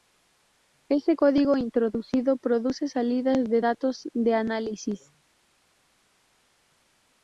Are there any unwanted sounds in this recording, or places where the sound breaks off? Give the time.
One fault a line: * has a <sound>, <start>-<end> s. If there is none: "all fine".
all fine